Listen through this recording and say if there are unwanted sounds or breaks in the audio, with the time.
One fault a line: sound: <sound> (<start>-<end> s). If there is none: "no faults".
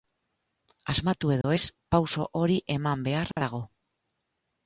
sound: dropout (1.4-1.4 s)
sound: dropout (3.3-3.4 s)